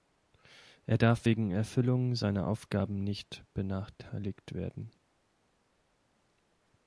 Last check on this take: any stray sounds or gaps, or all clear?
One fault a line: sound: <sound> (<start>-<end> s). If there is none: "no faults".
no faults